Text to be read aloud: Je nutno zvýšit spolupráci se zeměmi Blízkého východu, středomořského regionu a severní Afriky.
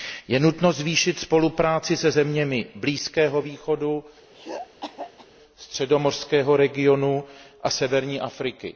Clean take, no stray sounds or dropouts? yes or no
no